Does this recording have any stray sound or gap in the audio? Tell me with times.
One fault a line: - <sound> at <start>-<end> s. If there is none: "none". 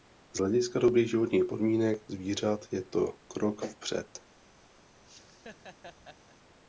- laugh at 5.0-6.4 s